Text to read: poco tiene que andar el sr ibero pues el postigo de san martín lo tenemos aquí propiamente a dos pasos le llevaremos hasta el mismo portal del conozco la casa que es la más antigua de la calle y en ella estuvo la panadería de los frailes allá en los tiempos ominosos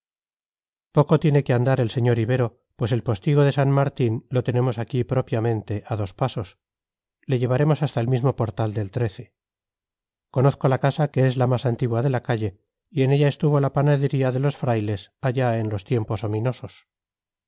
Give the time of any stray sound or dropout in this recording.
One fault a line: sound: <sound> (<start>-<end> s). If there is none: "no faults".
no faults